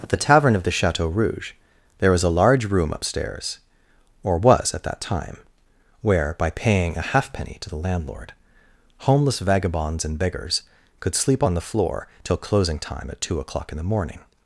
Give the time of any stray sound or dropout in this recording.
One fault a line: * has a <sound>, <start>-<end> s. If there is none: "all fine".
all fine